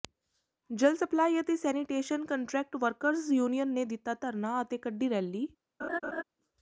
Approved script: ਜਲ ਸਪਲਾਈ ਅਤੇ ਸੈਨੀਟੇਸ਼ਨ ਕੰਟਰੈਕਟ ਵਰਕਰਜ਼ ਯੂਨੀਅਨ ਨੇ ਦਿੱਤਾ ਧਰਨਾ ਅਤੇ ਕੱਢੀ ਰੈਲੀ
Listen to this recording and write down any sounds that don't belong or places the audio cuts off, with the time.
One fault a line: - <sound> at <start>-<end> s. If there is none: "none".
- laugh at 5.8-6.2 s